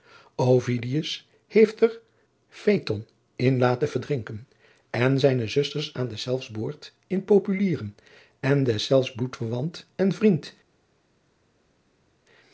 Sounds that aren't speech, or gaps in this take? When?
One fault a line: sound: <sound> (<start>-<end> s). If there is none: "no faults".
no faults